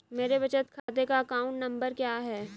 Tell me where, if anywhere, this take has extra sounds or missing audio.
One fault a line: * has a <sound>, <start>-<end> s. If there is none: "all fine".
* has a dropout, 0.8-0.9 s